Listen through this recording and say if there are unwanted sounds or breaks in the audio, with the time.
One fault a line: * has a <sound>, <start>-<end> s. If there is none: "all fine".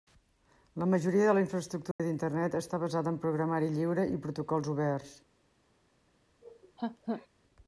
* has a dropout, 1.9-2.0 s
* has a laugh, 6.4-7.3 s